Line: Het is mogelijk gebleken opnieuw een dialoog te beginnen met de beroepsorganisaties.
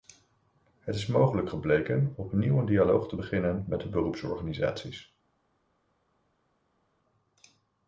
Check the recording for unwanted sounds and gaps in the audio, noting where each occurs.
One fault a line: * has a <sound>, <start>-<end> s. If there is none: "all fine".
all fine